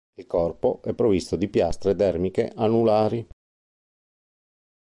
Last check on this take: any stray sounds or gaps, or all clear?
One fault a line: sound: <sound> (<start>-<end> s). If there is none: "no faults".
no faults